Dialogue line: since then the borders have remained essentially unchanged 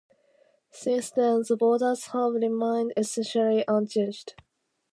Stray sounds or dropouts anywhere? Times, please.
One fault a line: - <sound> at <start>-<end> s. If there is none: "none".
none